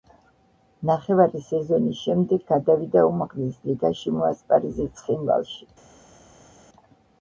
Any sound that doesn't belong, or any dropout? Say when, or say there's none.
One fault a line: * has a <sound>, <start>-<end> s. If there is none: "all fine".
all fine